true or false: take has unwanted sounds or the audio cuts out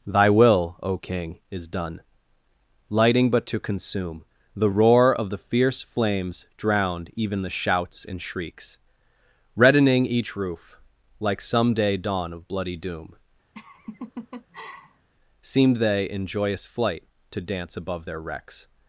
true